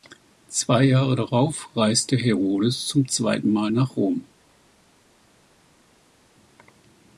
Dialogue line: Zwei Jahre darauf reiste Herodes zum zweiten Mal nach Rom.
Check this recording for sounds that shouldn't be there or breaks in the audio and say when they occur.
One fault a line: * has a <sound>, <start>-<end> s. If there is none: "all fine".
all fine